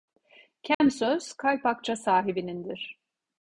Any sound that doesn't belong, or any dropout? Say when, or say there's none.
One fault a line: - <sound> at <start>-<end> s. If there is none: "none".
- dropout at 0.7-0.8 s